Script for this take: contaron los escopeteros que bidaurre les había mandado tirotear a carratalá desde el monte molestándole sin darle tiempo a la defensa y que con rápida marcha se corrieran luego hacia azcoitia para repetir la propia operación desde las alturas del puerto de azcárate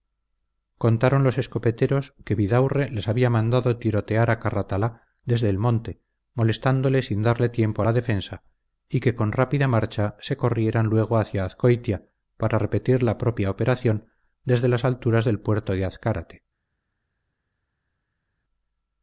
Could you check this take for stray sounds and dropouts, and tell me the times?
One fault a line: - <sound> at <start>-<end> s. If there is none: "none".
none